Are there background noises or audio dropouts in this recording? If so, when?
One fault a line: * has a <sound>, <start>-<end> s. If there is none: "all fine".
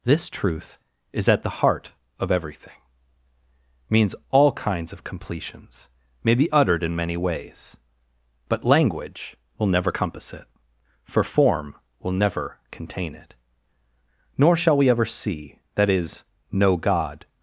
all fine